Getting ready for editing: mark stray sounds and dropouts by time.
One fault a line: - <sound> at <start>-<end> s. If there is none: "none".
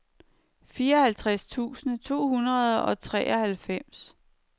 none